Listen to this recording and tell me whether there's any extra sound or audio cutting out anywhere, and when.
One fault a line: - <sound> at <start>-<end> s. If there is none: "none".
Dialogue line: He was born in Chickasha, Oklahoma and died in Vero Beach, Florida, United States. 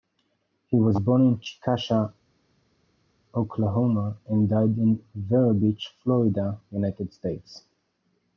none